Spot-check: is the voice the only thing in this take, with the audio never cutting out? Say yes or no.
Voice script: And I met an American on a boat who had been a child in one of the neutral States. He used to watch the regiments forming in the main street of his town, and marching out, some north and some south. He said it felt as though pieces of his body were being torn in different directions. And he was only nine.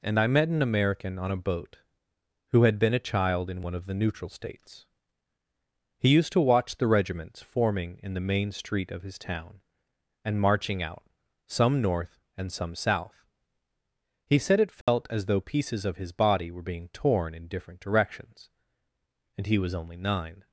no